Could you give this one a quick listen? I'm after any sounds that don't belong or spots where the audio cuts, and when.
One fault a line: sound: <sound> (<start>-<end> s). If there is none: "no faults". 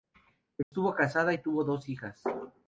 sound: dropout (0.6-0.7 s)